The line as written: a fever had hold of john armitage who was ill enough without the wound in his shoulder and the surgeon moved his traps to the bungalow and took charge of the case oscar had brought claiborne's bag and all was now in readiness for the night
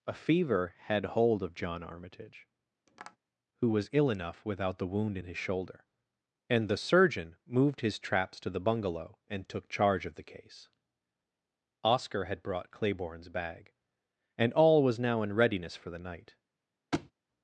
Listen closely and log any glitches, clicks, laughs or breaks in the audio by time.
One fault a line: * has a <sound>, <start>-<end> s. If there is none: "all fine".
* has a tap, 2.9-3.2 s
* has a thud, 16.9-17.1 s